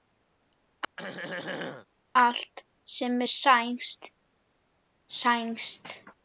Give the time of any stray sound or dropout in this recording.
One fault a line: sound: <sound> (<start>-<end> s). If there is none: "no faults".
sound: throat clearing (1.0-1.9 s)